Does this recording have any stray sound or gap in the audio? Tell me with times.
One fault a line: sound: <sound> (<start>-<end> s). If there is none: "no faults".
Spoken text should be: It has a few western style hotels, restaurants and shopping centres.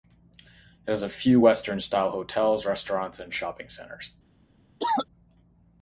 sound: cough (4.8-5.1 s)